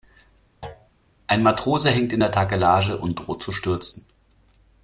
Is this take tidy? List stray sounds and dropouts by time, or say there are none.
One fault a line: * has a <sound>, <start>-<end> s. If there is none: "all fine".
* has a thud, 0.6-0.9 s